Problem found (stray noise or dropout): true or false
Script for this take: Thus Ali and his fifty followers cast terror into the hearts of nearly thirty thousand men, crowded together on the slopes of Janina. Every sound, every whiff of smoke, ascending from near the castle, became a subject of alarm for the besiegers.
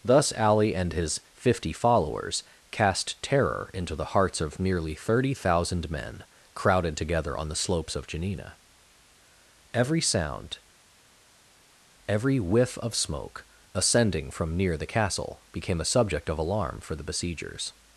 false